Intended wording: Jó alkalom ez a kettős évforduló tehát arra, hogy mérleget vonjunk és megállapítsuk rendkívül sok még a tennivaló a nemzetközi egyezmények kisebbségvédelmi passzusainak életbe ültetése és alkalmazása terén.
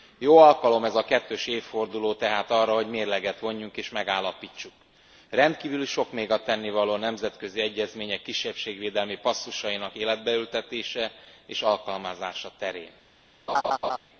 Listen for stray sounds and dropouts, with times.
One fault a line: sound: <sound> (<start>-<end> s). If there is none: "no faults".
sound: laugh (13.5-14.0 s)